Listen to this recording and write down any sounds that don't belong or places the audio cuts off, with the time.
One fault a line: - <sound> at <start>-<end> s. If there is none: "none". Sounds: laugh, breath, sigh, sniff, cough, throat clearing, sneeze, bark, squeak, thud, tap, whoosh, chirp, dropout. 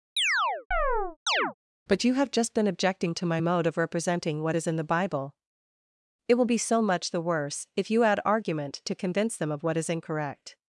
- chirp at 0.2-1.5 s